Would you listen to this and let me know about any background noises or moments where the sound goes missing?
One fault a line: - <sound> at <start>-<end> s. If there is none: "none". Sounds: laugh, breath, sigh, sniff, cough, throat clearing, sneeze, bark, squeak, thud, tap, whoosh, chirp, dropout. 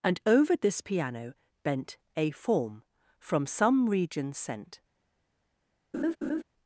- laugh at 5.9-6.4 s